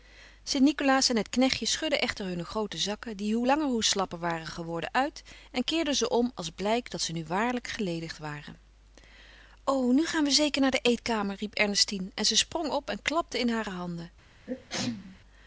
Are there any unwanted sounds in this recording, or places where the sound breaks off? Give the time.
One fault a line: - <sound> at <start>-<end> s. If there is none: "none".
- sneeze at 14.5-15.2 s